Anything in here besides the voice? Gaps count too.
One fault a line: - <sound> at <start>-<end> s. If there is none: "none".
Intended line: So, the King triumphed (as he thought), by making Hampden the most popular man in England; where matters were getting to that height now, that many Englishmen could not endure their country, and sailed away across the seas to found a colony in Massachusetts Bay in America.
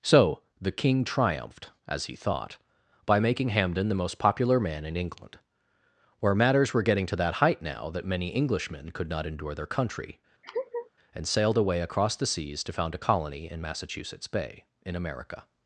- laugh at 10.4-10.9 s